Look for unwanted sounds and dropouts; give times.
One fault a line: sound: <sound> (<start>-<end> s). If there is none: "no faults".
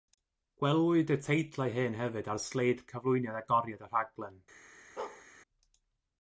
sound: bark (5.0-5.3 s)